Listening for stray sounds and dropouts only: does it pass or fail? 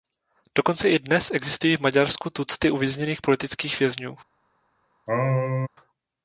fail